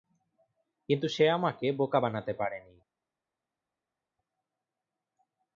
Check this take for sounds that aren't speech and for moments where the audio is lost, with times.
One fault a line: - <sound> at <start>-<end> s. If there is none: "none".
none